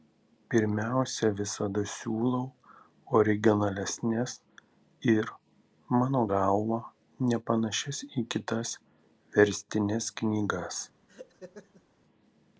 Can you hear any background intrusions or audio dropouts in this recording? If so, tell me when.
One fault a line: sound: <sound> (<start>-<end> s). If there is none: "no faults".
sound: laugh (11.1-11.8 s)